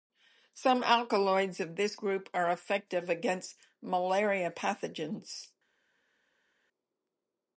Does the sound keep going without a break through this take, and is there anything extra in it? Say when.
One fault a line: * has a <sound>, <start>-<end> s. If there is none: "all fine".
all fine